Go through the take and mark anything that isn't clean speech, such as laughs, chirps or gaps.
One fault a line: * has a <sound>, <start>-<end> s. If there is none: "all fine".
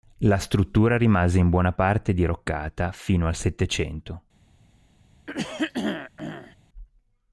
* has a throat clearing, 5.3-6.6 s